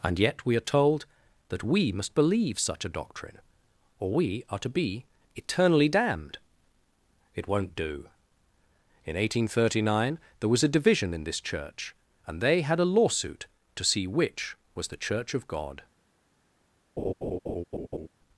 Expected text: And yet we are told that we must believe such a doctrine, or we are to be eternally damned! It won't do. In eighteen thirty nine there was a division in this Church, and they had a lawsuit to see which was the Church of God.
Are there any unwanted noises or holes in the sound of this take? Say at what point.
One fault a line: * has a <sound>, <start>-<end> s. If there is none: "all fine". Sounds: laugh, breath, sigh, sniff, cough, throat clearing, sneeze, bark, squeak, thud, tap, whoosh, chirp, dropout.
* has a laugh, 17.0-18.1 s